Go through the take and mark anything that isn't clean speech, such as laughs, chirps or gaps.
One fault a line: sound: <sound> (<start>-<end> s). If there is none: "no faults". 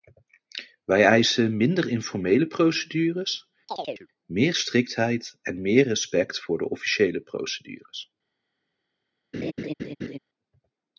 sound: chirp (3.7-4.1 s)
sound: laugh (9.3-10.2 s)